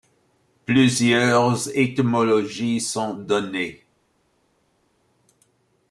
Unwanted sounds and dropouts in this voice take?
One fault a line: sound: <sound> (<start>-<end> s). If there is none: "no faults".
no faults